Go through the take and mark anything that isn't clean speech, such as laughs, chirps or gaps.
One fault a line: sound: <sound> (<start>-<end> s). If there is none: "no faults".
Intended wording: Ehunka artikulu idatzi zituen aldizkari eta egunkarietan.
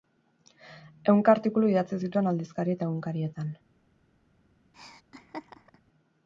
sound: laugh (4.7-5.8 s)